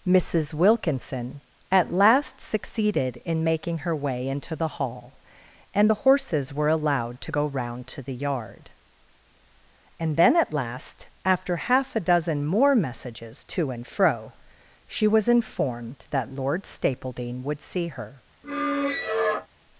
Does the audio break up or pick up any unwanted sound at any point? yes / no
yes